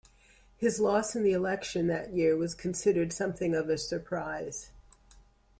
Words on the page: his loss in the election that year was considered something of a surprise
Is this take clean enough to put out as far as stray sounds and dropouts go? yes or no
yes